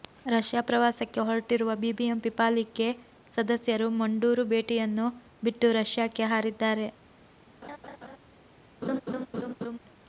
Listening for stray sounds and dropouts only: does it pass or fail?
fail